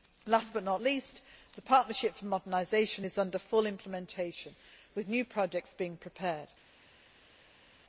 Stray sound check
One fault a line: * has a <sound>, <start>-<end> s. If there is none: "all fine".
all fine